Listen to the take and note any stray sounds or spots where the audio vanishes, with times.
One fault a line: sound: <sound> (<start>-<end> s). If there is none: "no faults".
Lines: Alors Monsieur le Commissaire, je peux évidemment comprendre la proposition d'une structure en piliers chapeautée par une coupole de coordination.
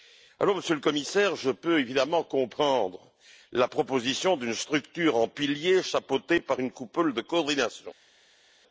no faults